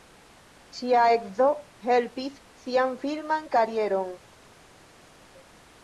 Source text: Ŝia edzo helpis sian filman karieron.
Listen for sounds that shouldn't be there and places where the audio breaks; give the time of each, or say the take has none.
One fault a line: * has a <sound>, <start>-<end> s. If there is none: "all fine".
all fine